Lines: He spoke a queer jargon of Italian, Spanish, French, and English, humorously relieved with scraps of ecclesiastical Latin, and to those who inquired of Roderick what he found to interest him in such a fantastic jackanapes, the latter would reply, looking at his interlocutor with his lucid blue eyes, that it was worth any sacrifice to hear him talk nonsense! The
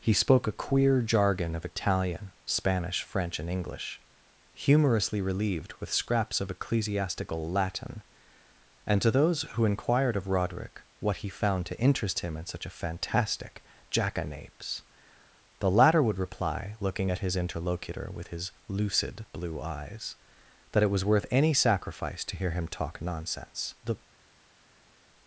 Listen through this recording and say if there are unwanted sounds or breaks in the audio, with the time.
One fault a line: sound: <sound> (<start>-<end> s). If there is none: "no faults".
no faults